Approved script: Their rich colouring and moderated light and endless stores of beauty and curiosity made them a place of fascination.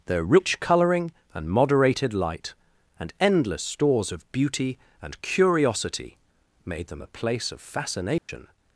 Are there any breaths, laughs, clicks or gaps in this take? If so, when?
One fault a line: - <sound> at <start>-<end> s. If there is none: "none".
- dropout at 8.2-8.3 s